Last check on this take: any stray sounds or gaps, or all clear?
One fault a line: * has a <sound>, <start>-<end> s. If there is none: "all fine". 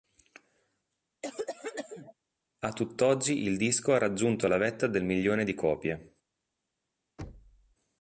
* has a cough, 1.2-2.1 s
* has a thud, 7.2-7.8 s